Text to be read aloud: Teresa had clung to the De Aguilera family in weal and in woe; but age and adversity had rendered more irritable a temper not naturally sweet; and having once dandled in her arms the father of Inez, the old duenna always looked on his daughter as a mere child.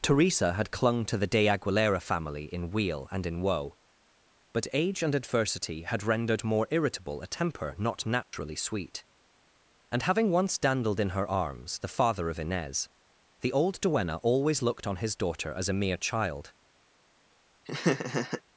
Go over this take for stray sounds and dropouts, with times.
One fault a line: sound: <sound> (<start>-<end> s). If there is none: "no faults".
sound: dropout (8.2-8.3 s)
sound: laugh (17.7-18.4 s)